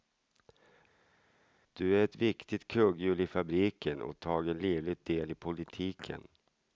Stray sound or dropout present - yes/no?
no